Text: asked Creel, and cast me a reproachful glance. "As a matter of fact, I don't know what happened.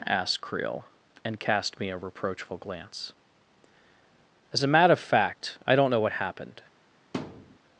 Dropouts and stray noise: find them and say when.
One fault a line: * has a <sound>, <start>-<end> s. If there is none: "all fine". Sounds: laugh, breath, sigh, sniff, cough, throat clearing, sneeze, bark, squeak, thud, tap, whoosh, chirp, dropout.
* has a thud, 7.1-7.6 s